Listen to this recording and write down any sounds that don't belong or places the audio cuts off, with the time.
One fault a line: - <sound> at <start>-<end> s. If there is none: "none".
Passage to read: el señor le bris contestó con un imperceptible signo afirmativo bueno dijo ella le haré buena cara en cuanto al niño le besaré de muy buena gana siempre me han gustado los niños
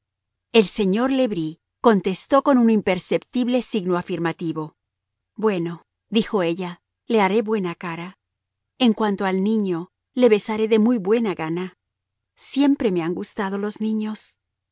none